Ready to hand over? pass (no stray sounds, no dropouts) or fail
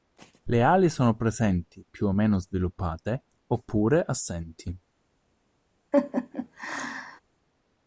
fail